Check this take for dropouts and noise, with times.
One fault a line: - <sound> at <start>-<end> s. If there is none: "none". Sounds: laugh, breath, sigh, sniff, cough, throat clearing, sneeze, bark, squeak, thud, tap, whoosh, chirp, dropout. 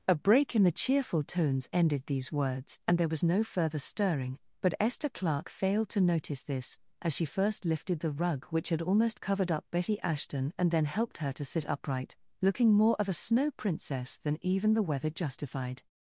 none